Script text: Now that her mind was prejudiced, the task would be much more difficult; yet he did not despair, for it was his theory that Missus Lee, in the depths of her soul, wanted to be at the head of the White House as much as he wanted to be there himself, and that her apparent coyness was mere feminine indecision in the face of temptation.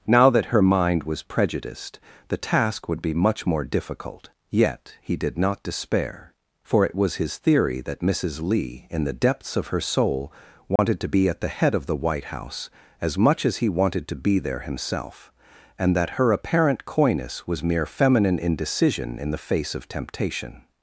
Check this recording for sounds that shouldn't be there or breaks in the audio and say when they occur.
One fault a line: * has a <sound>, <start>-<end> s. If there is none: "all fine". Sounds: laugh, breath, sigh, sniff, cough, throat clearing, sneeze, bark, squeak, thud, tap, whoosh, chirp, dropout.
* has a dropout, 10.8-10.8 s